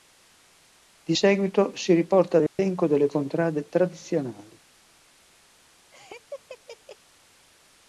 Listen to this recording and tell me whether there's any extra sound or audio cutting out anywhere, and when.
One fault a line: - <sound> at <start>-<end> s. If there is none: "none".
- dropout at 2.5-2.6 s
- laugh at 5.9-7.0 s